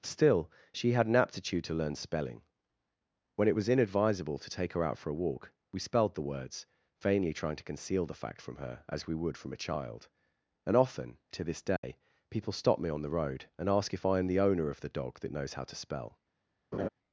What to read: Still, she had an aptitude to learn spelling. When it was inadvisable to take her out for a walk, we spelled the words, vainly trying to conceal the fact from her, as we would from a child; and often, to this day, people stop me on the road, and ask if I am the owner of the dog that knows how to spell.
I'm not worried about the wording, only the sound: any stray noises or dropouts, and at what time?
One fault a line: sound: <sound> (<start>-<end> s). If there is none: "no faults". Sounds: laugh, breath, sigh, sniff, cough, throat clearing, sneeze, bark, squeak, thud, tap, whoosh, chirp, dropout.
sound: dropout (11.8-11.8 s)
sound: laugh (16.7-16.9 s)